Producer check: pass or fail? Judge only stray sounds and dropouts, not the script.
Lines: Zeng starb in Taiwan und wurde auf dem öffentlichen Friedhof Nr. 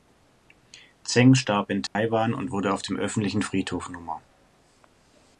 fail